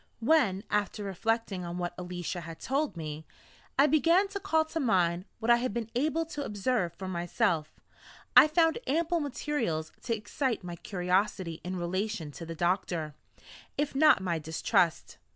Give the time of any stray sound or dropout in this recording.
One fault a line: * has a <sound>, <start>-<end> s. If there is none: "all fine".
all fine